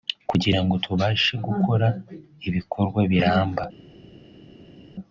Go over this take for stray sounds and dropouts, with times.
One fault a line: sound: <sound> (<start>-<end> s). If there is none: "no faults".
no faults